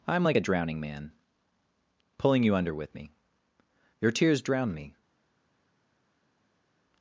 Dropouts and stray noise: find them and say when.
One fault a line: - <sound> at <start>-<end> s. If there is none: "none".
none